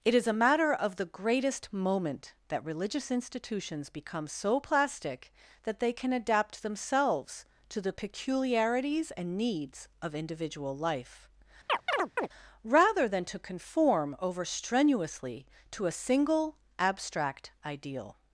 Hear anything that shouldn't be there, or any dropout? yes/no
yes